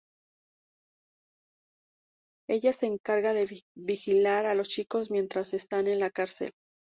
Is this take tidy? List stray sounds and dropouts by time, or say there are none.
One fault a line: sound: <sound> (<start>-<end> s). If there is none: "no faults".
no faults